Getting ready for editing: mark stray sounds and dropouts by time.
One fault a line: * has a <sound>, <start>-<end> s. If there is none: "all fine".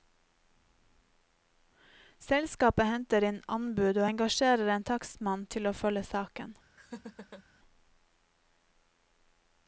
* has a laugh, 6.8-7.4 s